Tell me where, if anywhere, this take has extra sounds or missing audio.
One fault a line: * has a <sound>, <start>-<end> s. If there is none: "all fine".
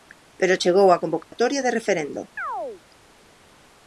* has a dropout, 1.2-1.3 s
* has a chirp, 2.4-2.8 s